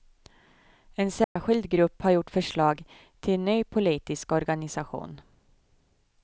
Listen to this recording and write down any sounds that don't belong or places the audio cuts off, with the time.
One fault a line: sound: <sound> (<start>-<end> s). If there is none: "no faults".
sound: dropout (1.2-1.4 s)